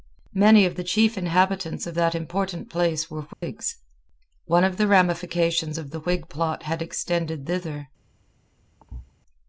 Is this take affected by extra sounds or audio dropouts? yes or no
yes